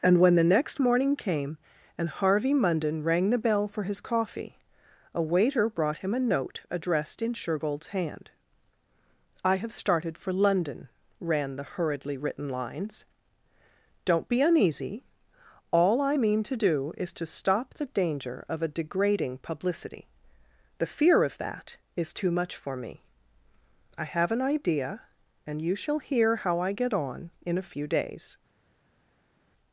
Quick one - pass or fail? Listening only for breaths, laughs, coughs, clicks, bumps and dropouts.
pass